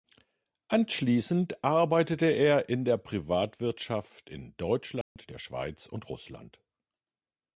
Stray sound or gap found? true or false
true